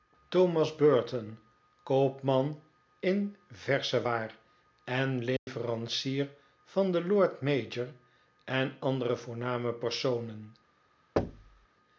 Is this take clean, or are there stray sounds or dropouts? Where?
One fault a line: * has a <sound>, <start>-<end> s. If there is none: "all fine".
* has a dropout, 5.4-5.5 s
* has a thud, 11.2-11.7 s